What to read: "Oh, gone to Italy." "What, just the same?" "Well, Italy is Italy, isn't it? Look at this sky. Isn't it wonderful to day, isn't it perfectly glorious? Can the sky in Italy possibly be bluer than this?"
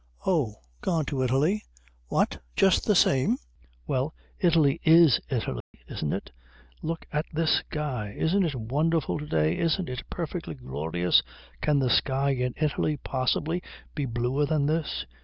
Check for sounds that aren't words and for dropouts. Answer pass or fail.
fail